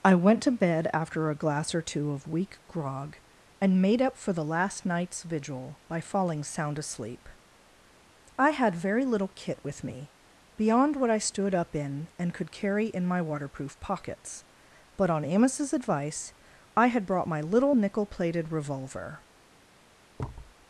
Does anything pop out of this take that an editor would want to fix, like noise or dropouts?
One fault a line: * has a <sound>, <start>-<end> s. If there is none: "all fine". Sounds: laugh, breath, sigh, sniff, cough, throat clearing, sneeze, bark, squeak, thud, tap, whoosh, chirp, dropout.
* has a thud, 20.2-20.6 s